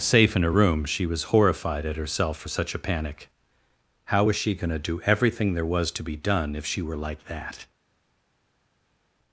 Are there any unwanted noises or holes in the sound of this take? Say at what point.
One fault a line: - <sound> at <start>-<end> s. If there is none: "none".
none